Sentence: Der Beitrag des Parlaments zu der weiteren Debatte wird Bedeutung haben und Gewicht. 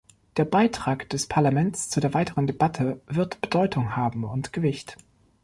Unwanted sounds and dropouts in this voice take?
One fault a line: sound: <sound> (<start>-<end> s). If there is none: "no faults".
no faults